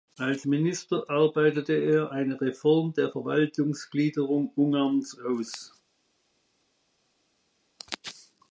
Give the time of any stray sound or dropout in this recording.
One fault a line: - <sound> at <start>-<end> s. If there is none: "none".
none